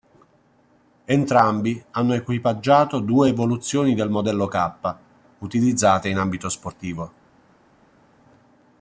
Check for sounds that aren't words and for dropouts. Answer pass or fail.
pass